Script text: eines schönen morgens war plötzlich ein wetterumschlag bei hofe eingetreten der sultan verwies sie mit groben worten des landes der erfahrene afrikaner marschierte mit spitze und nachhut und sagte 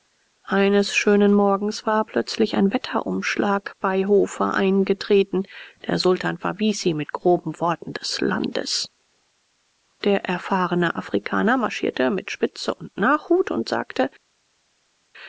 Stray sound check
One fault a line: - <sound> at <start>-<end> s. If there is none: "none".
none